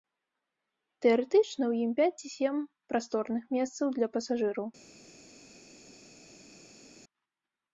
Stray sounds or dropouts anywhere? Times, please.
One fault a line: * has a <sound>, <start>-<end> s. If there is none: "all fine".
all fine